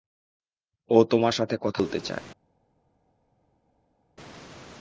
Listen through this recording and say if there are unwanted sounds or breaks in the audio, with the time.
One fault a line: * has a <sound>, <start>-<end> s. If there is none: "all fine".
all fine